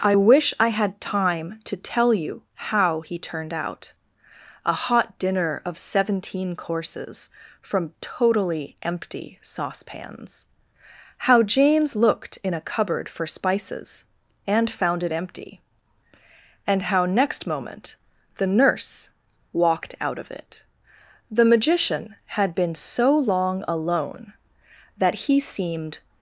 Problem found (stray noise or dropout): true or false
false